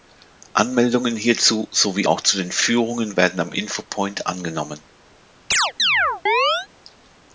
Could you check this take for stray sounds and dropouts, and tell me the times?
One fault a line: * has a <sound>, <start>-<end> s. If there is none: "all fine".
* has a chirp, 5.5-6.7 s